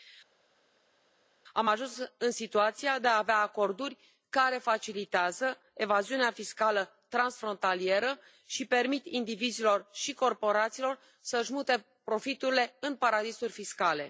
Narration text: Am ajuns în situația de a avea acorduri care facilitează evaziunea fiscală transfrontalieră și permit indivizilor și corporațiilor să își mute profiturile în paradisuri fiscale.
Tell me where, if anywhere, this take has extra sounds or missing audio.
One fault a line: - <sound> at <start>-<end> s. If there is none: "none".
none